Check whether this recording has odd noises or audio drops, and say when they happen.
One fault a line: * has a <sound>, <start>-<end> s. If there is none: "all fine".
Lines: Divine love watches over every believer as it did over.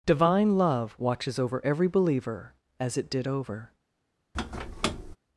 * has a squeak, 4.3-5.2 s